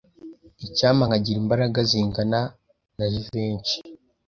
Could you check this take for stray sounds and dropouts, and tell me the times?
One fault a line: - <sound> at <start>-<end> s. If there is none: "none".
none